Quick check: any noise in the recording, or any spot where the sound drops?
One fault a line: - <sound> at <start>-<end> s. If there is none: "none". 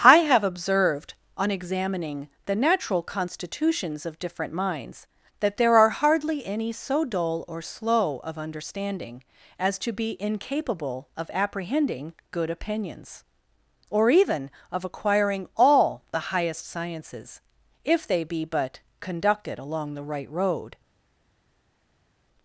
none